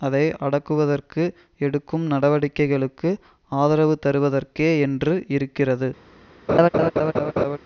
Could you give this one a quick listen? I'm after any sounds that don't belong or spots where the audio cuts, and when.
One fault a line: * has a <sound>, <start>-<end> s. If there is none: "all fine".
* has a laugh, 6.5-7.6 s